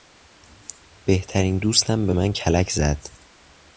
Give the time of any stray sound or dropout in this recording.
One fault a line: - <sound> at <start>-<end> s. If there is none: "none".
none